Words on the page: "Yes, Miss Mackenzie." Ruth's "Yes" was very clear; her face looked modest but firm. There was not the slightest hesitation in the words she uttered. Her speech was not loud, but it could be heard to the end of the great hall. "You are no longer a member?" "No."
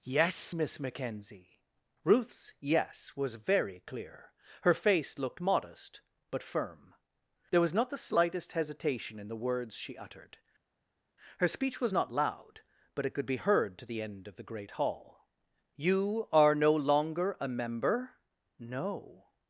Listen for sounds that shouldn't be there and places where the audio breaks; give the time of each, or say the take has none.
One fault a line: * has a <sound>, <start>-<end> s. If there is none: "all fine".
all fine